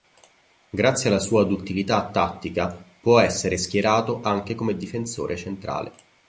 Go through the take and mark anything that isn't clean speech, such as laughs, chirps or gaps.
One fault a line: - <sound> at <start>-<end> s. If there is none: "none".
none